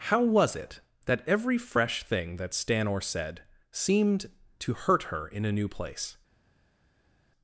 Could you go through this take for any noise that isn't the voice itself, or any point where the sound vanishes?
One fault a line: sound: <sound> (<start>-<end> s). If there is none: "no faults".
no faults